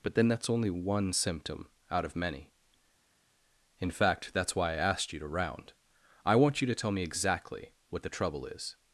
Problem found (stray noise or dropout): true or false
false